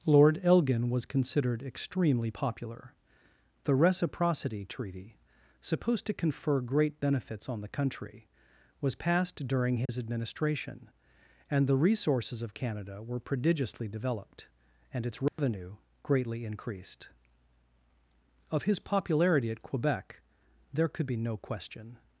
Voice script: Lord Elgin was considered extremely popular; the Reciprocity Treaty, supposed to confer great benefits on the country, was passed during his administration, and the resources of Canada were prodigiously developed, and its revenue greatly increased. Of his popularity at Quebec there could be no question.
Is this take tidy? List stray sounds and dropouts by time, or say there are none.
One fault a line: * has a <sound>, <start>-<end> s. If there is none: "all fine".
* has a dropout, 9.9-9.9 s
* has a dropout, 15.3-15.4 s